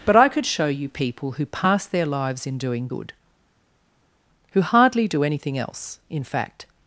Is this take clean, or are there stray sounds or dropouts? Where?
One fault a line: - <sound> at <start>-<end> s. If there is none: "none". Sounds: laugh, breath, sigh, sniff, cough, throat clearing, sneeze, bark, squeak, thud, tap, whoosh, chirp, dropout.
none